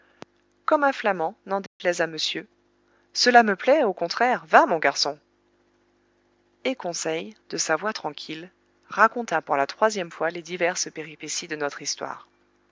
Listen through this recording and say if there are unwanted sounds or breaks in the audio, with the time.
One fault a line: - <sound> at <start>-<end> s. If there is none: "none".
- dropout at 1.7-1.8 s